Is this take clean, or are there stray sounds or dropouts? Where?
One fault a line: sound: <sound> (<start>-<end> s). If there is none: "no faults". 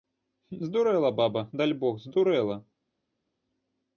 no faults